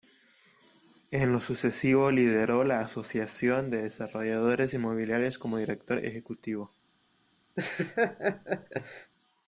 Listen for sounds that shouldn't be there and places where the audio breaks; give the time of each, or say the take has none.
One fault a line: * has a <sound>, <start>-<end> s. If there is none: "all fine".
* has a laugh, 7.6-9.1 s